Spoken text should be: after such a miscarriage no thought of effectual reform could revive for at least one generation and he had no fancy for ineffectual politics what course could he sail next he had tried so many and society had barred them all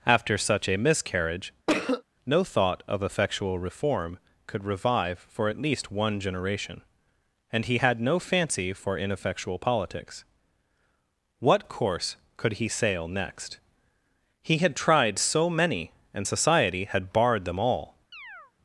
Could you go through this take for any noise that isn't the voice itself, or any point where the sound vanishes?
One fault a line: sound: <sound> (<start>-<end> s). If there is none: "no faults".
sound: cough (1.7-2.0 s)
sound: chirp (18.1-18.5 s)